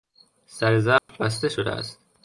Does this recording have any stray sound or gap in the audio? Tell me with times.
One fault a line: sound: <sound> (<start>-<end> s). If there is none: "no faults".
sound: dropout (1.0-1.1 s)